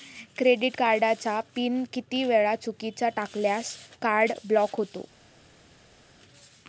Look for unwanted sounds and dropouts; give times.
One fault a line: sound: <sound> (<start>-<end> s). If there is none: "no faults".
no faults